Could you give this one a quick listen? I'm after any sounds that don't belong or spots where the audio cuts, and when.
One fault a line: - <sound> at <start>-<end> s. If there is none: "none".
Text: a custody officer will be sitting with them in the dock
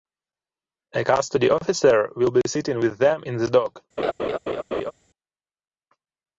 - laugh at 4.0-4.9 s